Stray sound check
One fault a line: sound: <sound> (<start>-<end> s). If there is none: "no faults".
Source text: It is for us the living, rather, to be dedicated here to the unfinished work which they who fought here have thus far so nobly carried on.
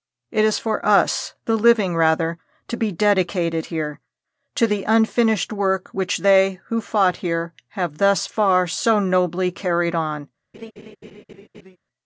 sound: laugh (10.5-11.8 s)